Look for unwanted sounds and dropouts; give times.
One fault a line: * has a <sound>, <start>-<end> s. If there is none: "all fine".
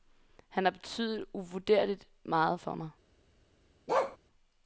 * has a bark, 3.9-4.2 s